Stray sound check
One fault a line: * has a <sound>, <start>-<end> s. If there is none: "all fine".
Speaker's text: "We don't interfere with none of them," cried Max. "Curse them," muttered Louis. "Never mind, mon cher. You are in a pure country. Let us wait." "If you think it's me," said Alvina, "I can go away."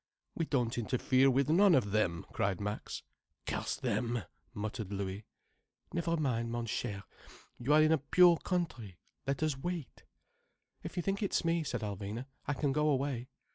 all fine